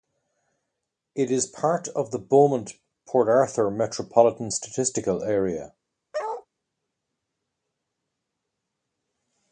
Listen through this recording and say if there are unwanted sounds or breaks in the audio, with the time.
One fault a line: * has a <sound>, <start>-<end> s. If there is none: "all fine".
* has a bark, 6.1-6.5 s